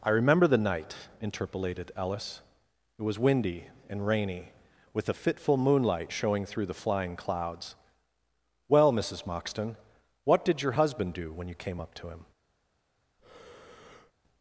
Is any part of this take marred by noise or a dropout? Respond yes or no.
yes